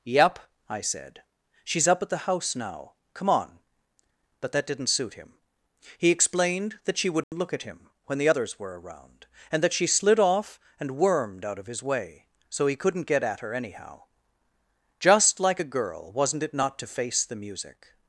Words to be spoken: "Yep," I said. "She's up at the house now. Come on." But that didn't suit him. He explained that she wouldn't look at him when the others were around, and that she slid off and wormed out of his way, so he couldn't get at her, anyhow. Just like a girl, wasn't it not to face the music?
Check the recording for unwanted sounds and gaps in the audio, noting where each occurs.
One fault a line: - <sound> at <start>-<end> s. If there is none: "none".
- dropout at 7.2-7.3 s